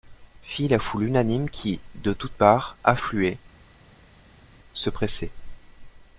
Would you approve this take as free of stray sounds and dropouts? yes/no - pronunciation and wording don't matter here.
yes